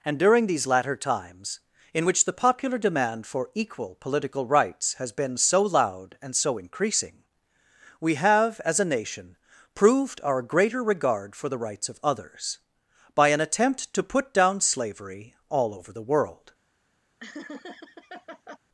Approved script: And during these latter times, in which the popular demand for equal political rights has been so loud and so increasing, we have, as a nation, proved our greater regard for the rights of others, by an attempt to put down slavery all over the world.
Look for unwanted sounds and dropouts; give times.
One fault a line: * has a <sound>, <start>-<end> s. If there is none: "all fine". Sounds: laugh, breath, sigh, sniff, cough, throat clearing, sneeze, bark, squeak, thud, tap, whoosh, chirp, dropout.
* has a laugh, 17.2-18.6 s